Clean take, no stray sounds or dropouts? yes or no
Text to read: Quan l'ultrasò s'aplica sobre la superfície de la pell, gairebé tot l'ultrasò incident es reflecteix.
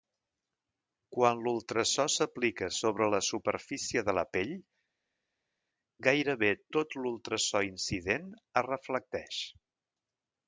yes